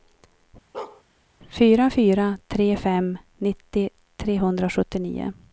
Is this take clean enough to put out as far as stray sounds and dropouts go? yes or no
no